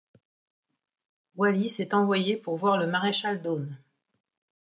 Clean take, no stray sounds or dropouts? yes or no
yes